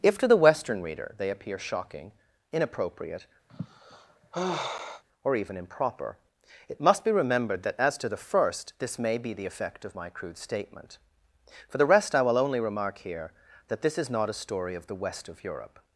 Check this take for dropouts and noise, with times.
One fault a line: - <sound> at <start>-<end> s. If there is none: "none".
- sigh at 3.5-5.0 s